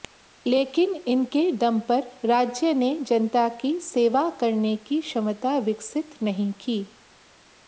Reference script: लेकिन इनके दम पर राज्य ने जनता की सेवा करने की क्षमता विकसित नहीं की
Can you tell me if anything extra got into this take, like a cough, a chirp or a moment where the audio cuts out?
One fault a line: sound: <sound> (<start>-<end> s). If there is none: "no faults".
no faults